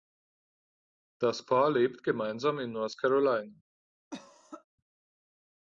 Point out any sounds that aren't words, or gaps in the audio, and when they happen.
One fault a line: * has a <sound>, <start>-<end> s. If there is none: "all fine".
* has a cough, 4.1-4.6 s